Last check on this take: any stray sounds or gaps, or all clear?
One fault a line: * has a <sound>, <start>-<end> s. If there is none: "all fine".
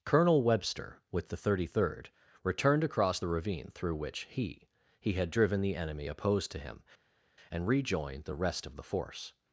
all fine